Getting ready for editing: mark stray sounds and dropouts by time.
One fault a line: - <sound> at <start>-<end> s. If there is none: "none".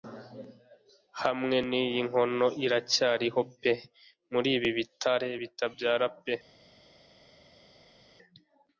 none